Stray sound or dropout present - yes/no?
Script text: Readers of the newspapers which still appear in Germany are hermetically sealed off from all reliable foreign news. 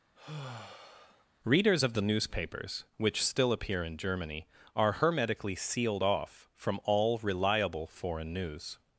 yes